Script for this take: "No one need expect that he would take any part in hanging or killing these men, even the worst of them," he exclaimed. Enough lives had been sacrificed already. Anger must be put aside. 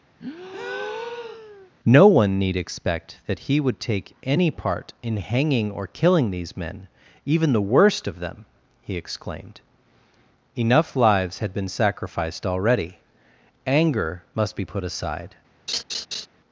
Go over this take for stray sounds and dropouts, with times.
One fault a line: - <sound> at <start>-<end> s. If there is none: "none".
- breath at 0.2-1.7 s
- laugh at 15.7-16.3 s